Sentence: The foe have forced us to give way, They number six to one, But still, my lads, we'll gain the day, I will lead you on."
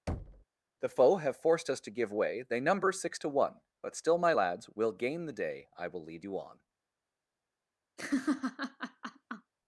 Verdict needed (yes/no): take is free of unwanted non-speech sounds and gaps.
no